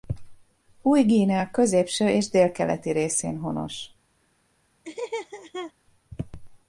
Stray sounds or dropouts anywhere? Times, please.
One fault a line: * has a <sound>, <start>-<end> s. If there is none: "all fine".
* has a laugh, 4.8-5.7 s